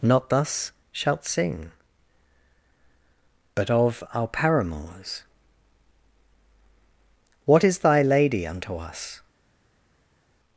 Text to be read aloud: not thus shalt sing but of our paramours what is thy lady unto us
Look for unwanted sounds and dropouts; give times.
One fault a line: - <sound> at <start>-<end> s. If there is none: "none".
none